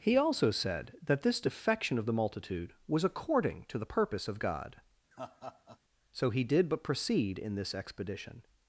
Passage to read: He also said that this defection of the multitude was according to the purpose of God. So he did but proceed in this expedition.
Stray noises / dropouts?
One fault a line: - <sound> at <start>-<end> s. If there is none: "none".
- laugh at 5.1-5.8 s